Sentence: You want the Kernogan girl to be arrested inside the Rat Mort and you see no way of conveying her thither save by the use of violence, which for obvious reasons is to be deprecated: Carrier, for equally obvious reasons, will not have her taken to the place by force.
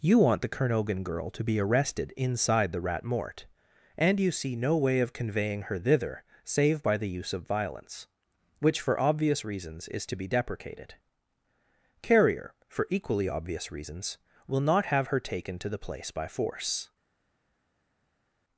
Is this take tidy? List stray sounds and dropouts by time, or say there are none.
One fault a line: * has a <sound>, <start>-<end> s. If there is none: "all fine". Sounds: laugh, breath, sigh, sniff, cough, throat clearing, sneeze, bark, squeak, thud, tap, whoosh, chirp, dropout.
all fine